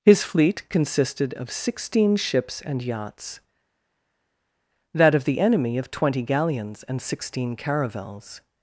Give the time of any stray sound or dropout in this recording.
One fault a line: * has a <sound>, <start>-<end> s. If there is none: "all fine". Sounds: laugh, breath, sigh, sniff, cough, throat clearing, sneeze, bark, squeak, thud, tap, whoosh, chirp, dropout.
all fine